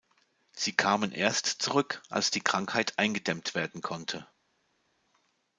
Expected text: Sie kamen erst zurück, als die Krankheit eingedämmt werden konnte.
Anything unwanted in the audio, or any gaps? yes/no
no